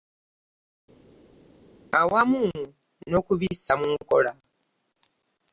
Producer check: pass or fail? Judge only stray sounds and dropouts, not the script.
pass